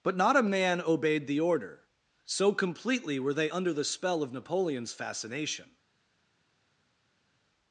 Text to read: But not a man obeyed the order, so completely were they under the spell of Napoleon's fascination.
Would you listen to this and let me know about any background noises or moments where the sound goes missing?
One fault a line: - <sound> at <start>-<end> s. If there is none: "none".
none